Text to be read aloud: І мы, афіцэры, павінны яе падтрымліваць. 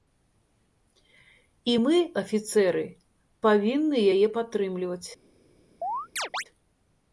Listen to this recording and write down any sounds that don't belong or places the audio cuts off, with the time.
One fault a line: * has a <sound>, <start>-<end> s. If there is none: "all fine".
* has a chirp, 5.8-6.4 s